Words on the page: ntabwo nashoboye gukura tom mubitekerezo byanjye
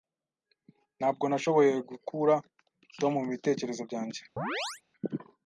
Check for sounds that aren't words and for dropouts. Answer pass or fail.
fail